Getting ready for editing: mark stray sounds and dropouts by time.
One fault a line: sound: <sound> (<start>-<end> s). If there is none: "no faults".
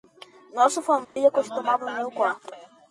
sound: dropout (1.0-1.2 s)